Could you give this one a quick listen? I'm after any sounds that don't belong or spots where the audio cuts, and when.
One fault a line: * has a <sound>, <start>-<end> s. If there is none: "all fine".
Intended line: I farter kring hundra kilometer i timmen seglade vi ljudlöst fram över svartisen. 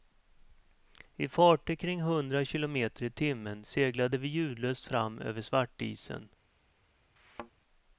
* has a thud, 7.2-7.5 s